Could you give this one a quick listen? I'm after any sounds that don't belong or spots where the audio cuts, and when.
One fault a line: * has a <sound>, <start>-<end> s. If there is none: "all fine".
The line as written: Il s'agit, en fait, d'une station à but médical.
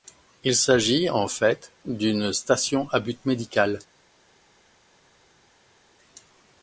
all fine